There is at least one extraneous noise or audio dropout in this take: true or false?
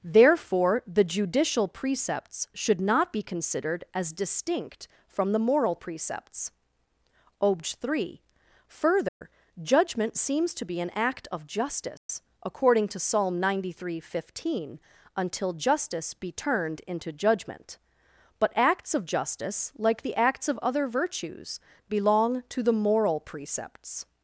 true